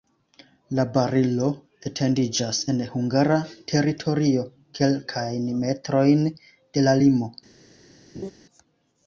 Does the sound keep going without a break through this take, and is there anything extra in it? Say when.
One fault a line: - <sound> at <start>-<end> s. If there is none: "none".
- laugh at 8.1-8.3 s